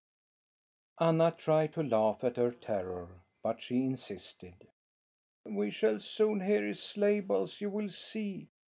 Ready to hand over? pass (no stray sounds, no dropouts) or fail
pass